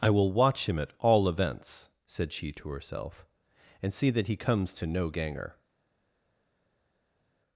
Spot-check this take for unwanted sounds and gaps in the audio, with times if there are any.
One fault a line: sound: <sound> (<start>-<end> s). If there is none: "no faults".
no faults